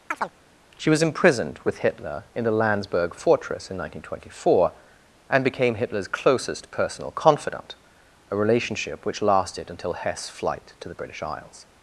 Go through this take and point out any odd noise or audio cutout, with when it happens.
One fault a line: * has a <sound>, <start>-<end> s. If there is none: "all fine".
* has a chirp, 0.1-0.3 s